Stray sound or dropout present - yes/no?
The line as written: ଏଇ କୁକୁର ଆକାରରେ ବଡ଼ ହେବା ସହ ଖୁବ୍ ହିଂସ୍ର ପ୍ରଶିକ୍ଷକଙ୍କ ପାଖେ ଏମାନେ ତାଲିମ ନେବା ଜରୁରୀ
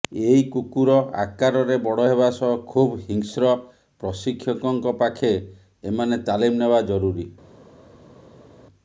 no